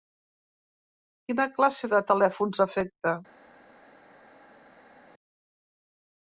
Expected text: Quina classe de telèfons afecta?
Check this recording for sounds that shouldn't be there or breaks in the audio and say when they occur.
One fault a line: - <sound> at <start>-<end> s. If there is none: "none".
none